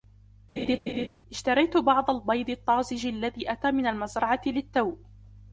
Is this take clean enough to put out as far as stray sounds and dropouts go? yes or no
no